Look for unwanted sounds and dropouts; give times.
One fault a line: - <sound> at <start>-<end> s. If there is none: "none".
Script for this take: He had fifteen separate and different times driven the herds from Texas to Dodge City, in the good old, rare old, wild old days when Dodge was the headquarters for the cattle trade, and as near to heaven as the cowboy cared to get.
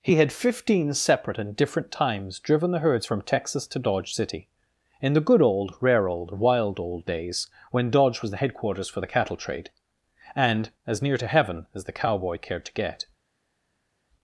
none